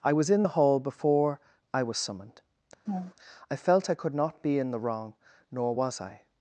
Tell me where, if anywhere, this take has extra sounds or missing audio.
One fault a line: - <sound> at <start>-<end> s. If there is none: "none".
- laugh at 2.9-3.1 s